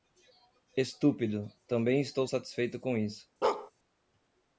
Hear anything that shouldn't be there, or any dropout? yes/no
yes